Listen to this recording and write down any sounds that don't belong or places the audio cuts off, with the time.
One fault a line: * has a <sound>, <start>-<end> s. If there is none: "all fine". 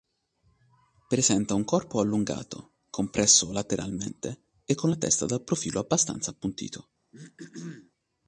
* has a throat clearing, 7.1-7.9 s